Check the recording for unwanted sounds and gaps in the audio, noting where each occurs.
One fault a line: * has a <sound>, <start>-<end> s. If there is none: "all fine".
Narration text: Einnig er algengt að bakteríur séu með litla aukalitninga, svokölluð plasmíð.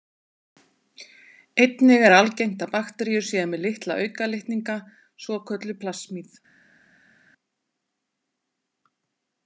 all fine